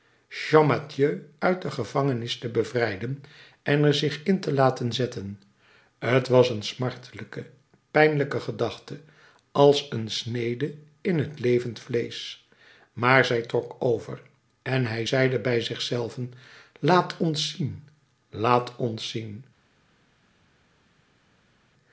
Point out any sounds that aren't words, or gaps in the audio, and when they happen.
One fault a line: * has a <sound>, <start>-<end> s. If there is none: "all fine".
all fine